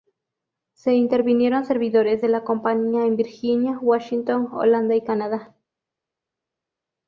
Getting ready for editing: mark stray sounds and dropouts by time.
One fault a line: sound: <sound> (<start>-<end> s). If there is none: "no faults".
no faults